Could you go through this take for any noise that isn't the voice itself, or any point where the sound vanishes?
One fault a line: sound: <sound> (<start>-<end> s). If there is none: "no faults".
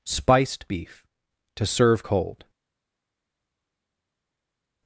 no faults